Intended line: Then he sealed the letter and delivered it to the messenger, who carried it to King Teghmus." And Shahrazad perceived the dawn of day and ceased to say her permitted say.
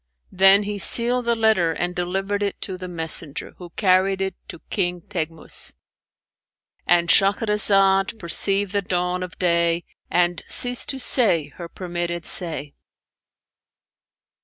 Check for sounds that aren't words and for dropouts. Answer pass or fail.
pass